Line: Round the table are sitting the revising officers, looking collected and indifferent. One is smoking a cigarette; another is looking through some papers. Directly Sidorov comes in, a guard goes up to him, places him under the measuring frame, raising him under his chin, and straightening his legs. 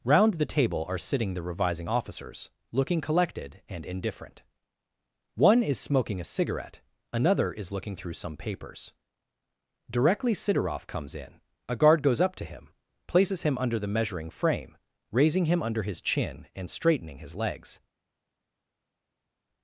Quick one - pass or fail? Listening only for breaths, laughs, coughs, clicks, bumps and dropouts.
pass